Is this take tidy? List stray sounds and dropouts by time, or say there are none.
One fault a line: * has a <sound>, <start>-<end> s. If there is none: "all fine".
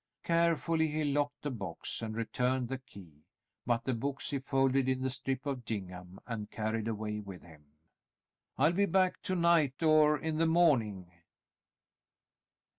all fine